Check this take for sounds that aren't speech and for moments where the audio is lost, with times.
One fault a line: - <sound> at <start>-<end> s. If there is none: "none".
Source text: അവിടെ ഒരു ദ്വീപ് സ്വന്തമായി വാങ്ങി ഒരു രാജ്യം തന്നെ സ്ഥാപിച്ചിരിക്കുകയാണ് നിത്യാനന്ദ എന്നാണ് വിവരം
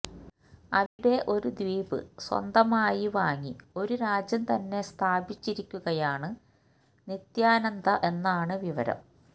- dropout at 0.9-1.0 s